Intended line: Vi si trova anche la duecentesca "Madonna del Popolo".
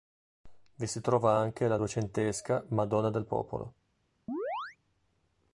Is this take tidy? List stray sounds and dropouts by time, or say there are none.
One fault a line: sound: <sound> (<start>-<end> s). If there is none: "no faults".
sound: chirp (4.3-4.8 s)